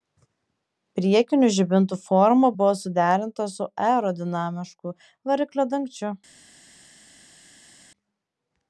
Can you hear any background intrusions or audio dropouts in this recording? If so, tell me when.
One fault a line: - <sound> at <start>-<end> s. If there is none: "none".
none